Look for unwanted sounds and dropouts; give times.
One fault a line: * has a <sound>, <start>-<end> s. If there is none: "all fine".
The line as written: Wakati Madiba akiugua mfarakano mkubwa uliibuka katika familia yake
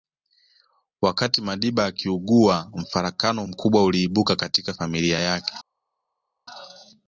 all fine